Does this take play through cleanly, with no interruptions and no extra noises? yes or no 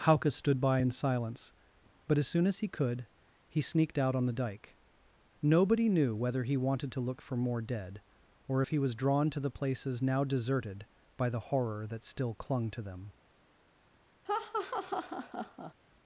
no